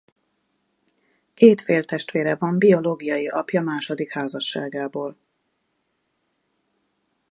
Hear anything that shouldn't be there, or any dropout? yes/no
no